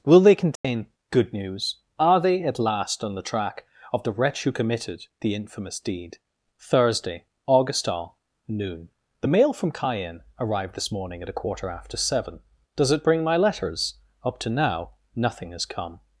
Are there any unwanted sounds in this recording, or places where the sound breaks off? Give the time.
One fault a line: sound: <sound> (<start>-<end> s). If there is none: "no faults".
sound: dropout (0.6-0.6 s)